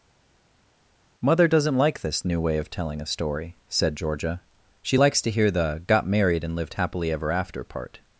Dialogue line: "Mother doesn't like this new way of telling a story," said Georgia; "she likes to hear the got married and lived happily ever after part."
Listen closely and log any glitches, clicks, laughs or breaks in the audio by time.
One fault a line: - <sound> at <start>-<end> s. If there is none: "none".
none